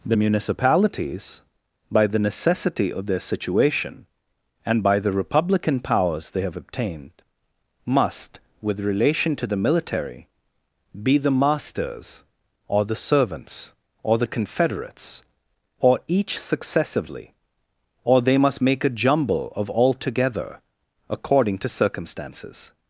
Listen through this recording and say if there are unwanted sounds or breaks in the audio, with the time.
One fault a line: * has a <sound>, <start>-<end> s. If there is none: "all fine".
all fine